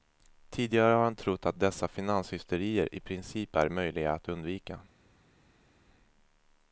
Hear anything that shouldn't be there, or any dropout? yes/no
no